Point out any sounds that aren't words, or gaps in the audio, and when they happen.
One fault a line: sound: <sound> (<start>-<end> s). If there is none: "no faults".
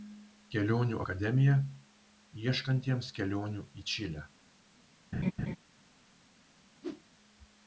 sound: laugh (5.1-5.6 s)
sound: whoosh (6.8-7.0 s)